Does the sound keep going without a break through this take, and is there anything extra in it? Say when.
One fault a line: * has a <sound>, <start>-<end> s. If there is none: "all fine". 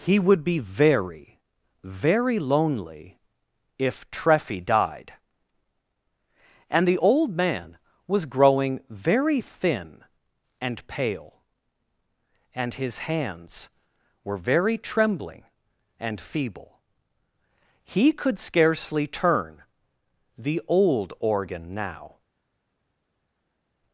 all fine